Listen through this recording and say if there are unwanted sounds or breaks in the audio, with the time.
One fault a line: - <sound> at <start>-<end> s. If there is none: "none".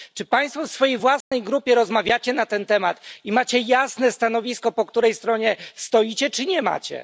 - dropout at 1.2-1.3 s